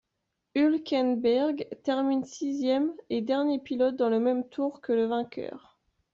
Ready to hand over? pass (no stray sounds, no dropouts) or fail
pass